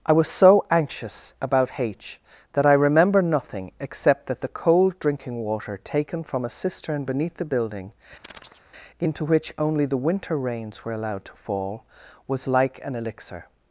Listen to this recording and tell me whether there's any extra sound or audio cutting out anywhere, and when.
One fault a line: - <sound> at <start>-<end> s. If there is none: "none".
- chirp at 8.2-8.6 s